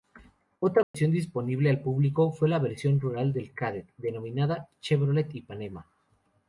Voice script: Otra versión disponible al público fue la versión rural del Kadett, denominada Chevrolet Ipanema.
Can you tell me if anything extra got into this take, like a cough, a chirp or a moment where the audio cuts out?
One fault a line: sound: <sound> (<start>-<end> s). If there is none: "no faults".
sound: dropout (0.8-0.9 s)